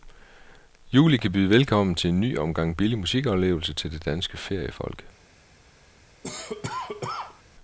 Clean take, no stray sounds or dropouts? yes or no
no